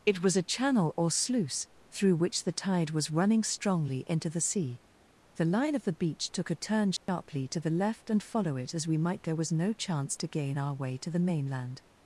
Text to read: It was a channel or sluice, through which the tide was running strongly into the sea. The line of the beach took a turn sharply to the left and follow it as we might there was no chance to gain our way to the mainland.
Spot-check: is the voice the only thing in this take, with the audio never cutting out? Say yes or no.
no